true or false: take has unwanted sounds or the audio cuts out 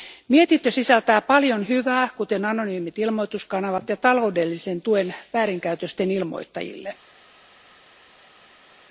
false